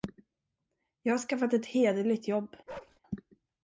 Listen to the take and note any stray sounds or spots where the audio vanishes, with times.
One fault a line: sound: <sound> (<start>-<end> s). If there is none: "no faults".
sound: bark (2.7-3.0 s)